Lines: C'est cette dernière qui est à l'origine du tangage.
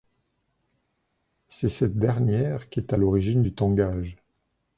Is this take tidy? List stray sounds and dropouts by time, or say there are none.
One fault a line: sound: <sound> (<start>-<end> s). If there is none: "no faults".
no faults